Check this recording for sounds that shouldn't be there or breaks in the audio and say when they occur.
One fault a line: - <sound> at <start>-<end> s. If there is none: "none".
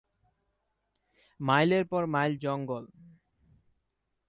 none